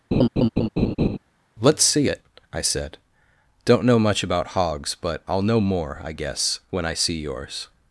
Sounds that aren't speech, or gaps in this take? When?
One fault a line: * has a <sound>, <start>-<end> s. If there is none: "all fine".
* has a laugh, 0.1-1.2 s